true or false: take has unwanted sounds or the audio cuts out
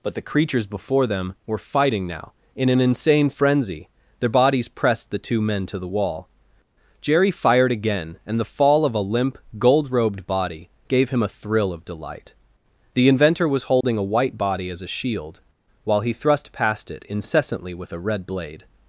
true